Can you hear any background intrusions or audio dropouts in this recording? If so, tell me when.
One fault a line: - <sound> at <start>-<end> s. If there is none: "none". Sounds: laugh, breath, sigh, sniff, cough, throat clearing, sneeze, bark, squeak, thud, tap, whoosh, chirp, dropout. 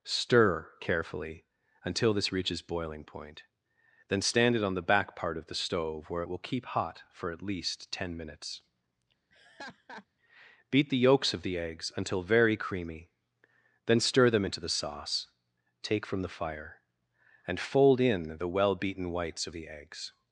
- laugh at 9.3-10.1 s